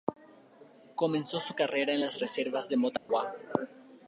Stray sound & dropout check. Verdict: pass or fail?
fail